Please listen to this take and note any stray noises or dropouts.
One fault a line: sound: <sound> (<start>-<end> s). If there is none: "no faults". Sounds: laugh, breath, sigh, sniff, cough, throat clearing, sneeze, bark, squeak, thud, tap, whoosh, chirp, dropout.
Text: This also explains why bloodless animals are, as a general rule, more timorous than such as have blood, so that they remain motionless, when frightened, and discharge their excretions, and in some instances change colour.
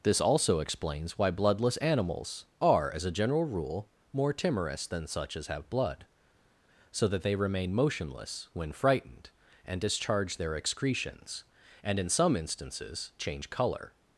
no faults